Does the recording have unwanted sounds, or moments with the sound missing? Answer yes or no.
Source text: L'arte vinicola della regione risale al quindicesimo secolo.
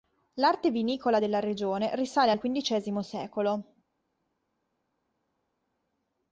no